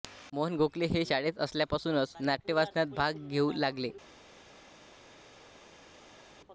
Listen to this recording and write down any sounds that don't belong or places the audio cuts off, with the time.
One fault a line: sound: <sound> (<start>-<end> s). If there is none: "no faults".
no faults